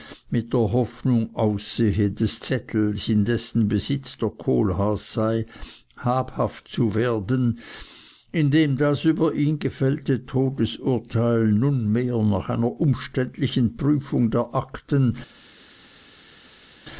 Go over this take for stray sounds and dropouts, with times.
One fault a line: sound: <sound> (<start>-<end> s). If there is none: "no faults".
no faults